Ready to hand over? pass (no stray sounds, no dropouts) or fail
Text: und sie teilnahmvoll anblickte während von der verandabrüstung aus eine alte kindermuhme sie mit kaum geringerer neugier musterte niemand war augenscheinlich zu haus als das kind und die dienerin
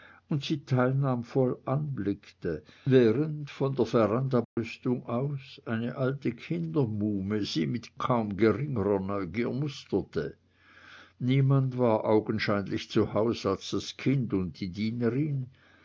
fail